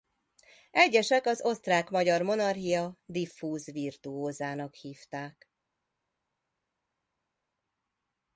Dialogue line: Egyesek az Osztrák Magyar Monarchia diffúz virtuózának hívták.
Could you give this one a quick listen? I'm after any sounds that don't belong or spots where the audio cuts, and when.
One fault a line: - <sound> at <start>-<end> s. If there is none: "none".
none